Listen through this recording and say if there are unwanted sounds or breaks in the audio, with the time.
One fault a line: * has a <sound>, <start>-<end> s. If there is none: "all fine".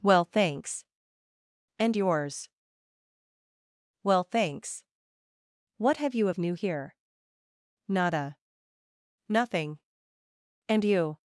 all fine